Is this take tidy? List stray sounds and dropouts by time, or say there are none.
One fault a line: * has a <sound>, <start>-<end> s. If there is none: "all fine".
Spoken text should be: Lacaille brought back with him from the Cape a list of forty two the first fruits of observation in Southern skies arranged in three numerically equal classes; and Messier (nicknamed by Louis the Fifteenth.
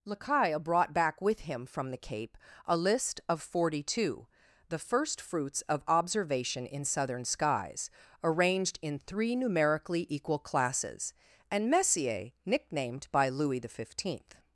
all fine